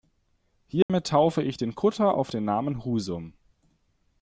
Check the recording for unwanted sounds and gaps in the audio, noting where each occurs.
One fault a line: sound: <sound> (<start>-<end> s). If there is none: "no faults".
sound: dropout (0.8-0.9 s)